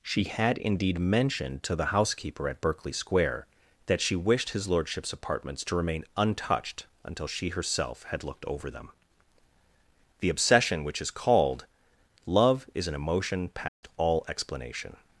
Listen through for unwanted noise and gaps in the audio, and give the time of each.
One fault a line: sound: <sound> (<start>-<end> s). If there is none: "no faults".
sound: dropout (13.7-13.8 s)